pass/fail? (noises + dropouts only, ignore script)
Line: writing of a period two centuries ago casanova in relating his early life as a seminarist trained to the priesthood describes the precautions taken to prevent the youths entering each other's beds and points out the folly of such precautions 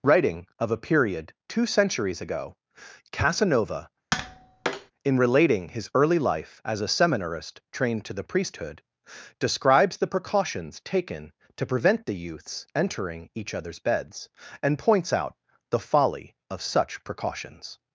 fail